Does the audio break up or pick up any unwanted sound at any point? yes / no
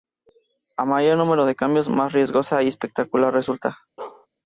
yes